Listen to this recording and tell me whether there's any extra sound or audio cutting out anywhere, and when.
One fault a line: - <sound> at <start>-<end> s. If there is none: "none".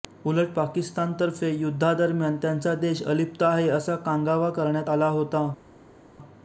none